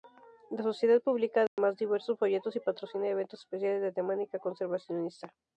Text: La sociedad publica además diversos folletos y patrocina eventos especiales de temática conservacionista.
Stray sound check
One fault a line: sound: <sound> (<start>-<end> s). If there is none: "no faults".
sound: dropout (1.5-1.6 s)